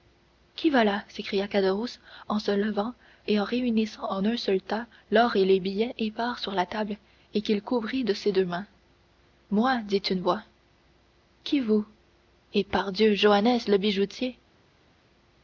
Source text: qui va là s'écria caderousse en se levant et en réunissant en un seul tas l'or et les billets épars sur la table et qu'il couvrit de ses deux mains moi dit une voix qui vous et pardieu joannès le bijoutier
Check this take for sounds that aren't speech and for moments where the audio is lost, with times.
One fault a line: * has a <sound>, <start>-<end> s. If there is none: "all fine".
all fine